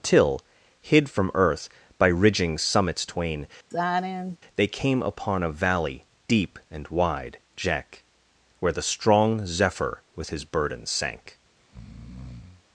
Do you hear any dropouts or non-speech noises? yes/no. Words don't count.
yes